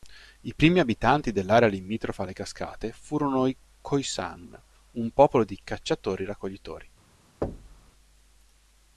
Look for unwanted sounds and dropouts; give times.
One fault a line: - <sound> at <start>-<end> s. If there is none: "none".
- thud at 7.4-7.9 s